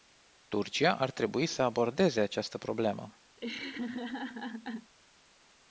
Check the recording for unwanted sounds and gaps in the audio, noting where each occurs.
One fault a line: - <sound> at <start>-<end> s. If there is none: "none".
- laugh at 3.4-4.9 s